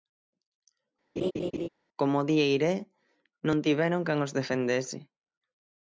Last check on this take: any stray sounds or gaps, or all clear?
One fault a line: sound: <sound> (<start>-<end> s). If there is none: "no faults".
sound: laugh (1.2-1.7 s)